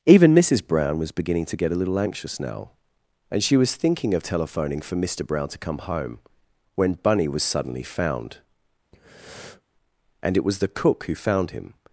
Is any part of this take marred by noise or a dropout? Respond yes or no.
yes